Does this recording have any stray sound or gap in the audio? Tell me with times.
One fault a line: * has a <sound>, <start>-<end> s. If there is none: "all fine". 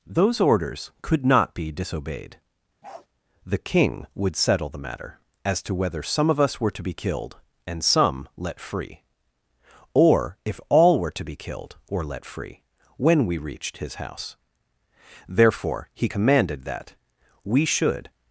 * has a bark, 2.8-3.1 s